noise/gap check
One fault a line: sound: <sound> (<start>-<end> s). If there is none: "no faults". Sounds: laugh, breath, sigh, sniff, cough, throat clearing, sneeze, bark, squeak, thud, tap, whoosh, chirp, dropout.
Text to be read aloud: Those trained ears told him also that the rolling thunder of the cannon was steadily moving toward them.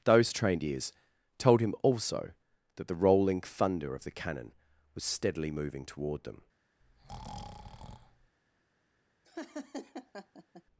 sound: breath (6.8-8.4 s)
sound: laugh (9.2-10.6 s)